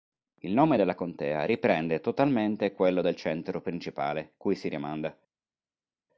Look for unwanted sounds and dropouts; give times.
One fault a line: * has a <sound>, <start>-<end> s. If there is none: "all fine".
all fine